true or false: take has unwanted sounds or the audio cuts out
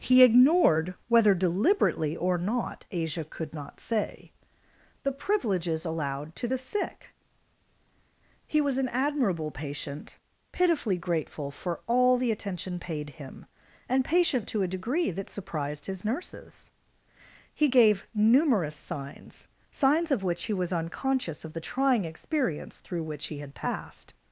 false